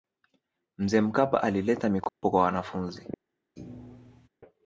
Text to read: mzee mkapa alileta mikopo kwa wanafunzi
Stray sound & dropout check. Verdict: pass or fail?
fail